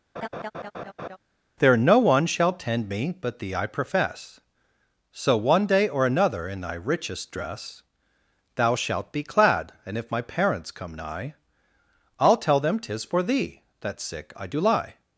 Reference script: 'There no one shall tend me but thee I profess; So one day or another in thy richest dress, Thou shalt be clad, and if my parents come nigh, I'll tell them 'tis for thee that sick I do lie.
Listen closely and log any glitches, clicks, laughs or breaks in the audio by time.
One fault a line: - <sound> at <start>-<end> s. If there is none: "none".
- laugh at 0.2-1.2 s